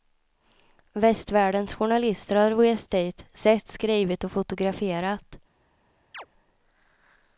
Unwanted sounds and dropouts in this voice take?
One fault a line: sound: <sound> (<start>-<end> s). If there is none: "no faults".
sound: chirp (6.1-6.3 s)